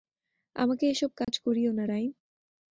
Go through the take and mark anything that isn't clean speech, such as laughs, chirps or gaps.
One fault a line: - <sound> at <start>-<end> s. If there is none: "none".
- dropout at 1.2-1.3 s